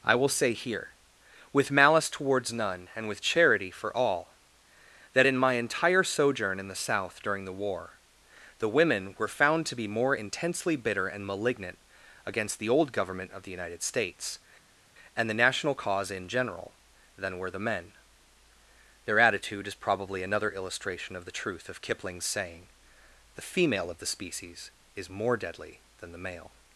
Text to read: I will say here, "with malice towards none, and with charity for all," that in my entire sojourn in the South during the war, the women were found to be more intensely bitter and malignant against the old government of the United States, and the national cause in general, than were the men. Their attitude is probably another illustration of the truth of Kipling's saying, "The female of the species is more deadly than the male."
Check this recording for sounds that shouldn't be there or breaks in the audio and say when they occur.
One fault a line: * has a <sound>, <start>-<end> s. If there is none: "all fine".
all fine